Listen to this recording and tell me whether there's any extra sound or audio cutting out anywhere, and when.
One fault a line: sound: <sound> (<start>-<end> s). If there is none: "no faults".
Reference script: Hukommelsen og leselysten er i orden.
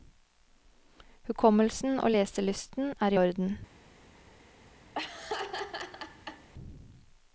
sound: laugh (4.9-6.5 s)